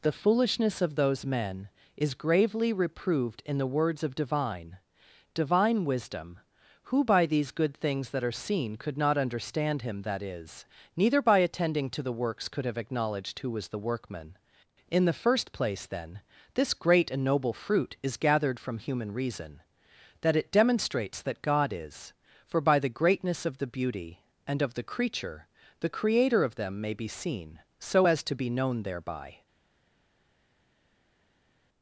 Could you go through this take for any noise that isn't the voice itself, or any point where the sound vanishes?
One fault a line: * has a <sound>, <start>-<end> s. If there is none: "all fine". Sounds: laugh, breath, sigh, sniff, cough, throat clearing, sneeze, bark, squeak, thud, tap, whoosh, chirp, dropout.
all fine